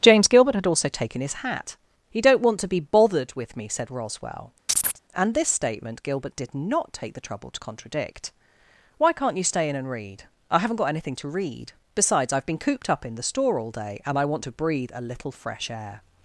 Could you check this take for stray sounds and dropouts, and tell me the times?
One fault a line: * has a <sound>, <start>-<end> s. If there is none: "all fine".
* has a chirp, 4.7-5.0 s